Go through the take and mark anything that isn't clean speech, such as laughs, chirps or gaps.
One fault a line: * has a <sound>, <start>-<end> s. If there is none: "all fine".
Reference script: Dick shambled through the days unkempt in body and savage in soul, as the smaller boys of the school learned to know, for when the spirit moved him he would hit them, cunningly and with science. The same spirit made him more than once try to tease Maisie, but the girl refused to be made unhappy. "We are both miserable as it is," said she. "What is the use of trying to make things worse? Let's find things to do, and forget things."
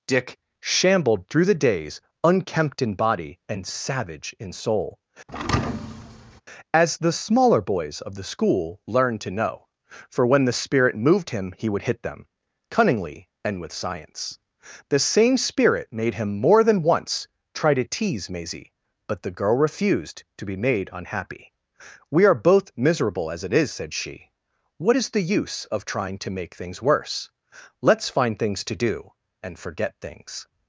* has a thud, 5.3-6.4 s